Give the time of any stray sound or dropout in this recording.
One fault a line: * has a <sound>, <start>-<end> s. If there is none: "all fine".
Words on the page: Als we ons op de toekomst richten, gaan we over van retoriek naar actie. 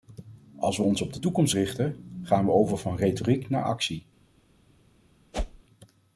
* has a whoosh, 5.3-5.6 s